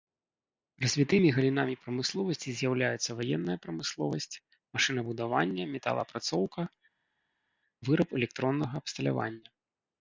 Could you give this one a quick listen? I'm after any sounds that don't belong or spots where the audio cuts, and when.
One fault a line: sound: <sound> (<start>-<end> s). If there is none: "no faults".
no faults